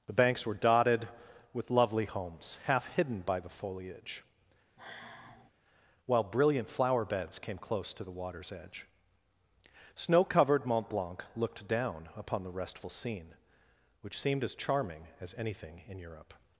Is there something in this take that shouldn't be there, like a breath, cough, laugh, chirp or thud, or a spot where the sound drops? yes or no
yes